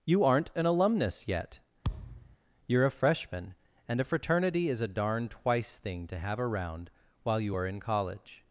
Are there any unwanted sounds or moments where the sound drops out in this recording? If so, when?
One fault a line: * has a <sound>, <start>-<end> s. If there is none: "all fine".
* has a thud, 1.8-2.4 s